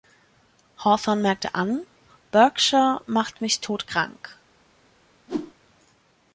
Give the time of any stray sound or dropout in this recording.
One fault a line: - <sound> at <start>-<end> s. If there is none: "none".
- whoosh at 5.3-5.5 s